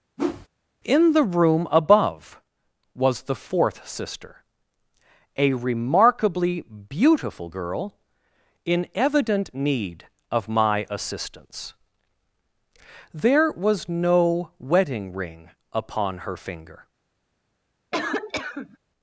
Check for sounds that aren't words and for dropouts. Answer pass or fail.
fail